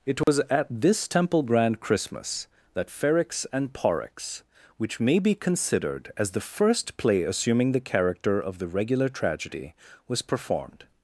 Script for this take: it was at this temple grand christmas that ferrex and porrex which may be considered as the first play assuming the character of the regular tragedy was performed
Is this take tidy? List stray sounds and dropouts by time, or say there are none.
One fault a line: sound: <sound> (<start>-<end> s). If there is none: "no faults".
sound: dropout (0.2-0.3 s)